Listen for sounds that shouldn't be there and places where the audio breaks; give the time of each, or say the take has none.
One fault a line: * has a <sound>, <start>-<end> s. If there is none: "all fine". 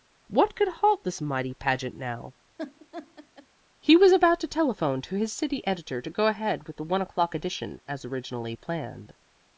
* has a laugh, 2.6-3.5 s